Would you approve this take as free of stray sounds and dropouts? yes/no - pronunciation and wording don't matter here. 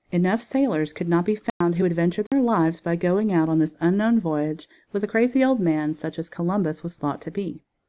no